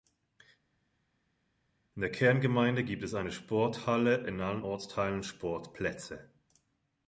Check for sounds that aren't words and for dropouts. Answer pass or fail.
pass